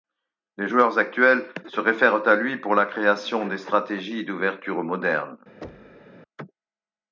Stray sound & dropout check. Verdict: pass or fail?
fail